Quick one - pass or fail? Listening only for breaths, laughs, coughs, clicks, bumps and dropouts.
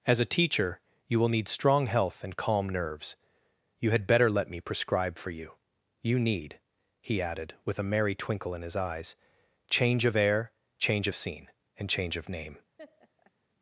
fail